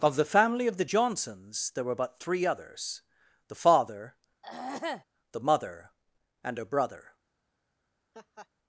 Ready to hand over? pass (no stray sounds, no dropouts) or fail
fail